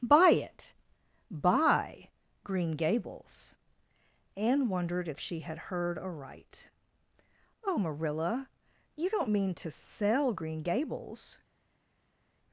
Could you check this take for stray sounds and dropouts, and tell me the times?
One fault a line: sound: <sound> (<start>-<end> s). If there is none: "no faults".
no faults